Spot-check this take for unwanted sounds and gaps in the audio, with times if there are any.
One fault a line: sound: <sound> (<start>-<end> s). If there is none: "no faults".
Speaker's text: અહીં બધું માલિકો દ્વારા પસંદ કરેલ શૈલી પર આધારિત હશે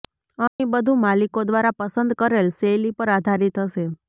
sound: dropout (0.5-0.6 s)